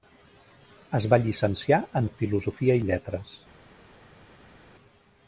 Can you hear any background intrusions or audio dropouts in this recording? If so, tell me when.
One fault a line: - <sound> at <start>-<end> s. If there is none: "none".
none